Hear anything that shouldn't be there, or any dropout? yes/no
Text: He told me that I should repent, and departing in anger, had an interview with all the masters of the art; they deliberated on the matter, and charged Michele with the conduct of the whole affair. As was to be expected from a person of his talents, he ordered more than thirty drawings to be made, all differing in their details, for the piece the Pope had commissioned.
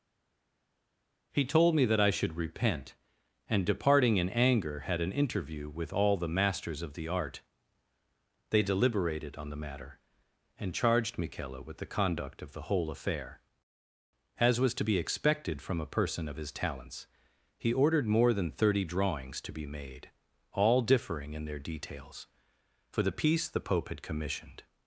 no